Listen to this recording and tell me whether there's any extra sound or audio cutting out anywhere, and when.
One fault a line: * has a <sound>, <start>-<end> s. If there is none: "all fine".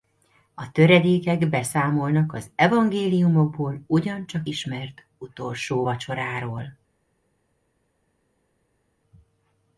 all fine